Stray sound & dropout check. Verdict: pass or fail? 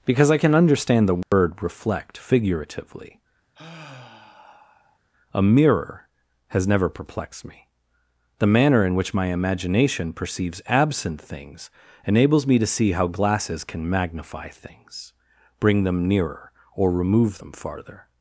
fail